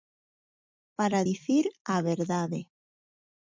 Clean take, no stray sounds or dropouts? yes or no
yes